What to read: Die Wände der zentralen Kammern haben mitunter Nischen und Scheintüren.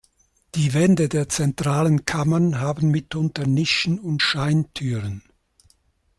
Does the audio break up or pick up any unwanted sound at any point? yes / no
no